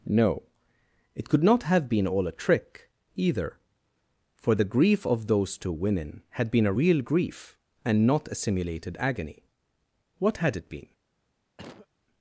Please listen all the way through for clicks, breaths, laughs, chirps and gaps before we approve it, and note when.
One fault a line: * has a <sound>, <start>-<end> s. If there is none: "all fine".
* has a cough, 11.6-11.9 s